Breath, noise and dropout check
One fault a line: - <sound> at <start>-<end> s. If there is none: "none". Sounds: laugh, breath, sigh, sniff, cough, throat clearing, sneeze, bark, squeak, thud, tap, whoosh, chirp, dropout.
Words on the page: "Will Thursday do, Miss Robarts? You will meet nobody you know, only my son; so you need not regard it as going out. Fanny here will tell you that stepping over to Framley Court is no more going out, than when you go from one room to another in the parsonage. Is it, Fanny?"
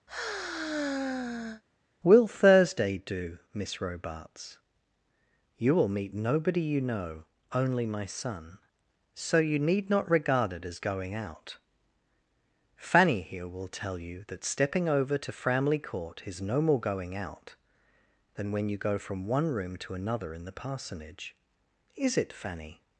- sigh at 0.1-1.6 s